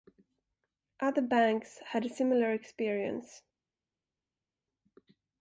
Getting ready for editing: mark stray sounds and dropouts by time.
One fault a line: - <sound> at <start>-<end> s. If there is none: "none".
none